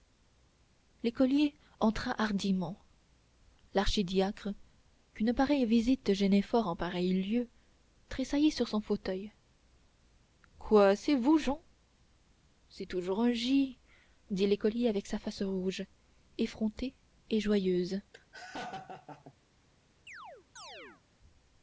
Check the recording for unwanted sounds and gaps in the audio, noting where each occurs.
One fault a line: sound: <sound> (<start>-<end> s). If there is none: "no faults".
sound: laugh (18.1-19.3 s)
sound: chirp (20.1-21.0 s)